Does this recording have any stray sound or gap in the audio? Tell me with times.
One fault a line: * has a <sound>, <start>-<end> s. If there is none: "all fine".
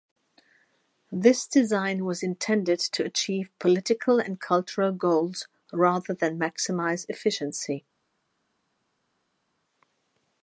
all fine